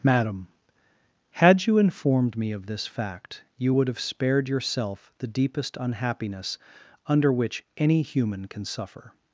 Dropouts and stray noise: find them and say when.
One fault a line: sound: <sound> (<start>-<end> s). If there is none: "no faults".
no faults